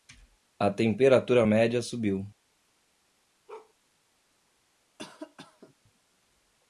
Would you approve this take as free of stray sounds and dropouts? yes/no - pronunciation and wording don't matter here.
no